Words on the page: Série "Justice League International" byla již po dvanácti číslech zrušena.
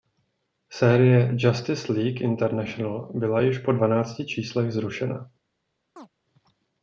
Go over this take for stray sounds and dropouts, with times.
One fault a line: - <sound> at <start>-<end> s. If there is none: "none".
- chirp at 6.0-6.1 s